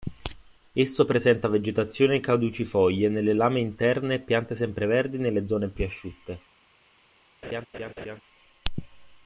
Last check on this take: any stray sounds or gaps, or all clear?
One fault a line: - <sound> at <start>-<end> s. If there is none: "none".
- laugh at 7.4-8.2 s